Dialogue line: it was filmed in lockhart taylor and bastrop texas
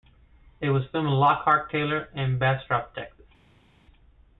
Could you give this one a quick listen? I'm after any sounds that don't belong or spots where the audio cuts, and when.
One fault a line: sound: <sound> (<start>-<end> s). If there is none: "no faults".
no faults